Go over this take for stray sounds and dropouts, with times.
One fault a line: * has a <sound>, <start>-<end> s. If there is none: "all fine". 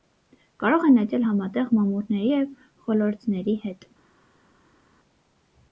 all fine